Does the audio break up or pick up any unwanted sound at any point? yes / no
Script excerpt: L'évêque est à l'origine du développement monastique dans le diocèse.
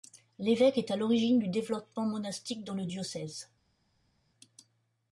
no